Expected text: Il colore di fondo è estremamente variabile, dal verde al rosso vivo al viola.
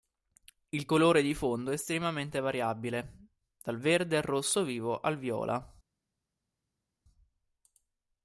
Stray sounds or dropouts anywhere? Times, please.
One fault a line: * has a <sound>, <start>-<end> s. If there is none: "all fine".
all fine